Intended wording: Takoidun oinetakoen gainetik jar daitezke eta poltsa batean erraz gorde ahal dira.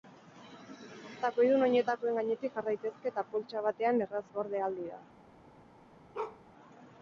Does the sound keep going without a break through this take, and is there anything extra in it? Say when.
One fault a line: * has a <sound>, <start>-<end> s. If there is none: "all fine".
* has a bark, 6.1-6.4 s